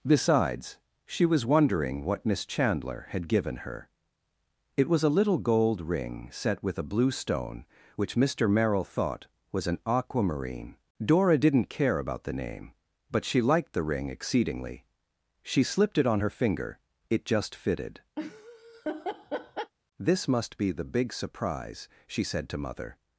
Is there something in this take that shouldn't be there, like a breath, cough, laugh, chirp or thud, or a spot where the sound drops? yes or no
yes